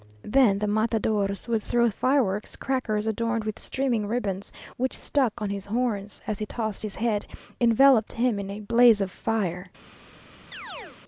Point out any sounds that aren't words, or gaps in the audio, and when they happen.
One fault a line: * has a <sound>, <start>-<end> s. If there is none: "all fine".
* has a chirp, 10.5-11.0 s